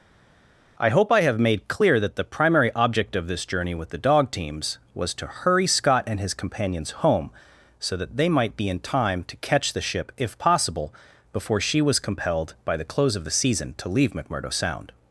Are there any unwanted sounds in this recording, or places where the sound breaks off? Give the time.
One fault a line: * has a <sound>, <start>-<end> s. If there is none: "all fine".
all fine